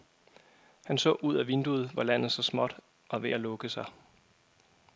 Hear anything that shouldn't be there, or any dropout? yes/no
no